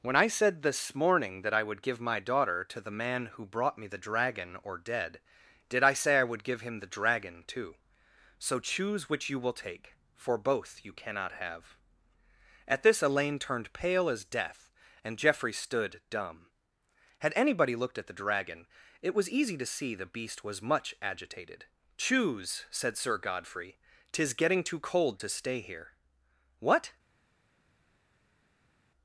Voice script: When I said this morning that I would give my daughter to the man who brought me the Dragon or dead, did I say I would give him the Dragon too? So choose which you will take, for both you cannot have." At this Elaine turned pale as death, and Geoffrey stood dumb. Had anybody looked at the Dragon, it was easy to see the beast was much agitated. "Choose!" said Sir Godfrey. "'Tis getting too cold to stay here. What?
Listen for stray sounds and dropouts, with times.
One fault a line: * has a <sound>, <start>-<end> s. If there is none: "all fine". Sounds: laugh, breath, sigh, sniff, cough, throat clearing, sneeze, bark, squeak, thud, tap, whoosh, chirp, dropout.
all fine